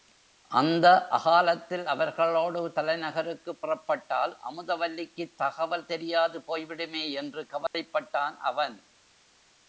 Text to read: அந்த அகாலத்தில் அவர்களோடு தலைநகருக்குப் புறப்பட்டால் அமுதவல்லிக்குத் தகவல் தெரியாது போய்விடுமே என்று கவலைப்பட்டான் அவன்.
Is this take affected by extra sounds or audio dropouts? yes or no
yes